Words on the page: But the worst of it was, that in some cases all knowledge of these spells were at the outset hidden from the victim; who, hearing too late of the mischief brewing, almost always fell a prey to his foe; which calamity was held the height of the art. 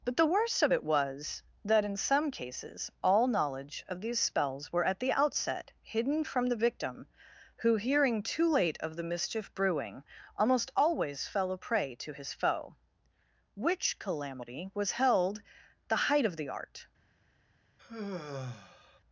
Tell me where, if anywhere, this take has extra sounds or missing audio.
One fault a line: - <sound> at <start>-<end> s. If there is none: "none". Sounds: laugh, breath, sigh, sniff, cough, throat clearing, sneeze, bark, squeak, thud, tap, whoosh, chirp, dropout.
- sigh at 17.8-19.0 s